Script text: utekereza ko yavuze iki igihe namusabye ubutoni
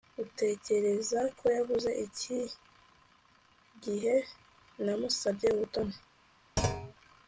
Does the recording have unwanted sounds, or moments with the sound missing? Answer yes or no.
yes